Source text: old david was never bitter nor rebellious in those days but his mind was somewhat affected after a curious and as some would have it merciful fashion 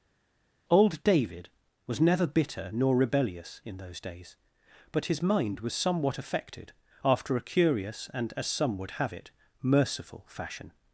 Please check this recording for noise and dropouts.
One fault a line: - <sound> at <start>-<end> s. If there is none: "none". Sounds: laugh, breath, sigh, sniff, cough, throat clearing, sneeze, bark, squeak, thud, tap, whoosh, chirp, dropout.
none